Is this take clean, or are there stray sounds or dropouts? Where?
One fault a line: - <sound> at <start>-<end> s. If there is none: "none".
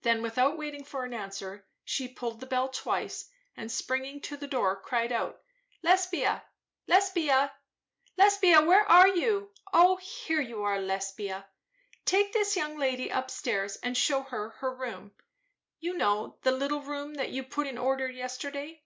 none